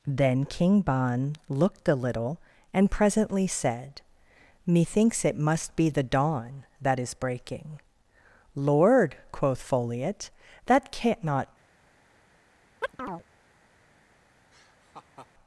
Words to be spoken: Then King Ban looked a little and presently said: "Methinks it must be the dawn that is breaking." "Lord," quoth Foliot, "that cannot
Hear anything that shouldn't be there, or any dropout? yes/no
yes